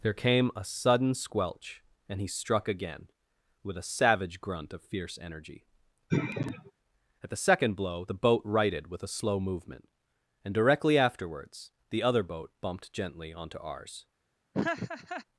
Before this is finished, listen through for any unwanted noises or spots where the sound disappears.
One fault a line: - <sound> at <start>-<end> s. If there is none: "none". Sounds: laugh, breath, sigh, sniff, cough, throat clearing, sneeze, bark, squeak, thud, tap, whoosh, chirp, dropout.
- sigh at 6.1-6.7 s
- laugh at 14.5-15.2 s